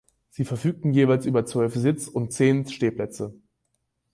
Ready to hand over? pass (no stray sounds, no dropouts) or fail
pass